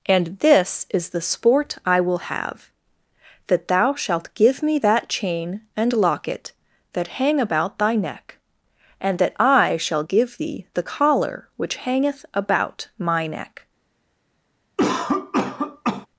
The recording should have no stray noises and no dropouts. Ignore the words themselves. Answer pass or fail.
fail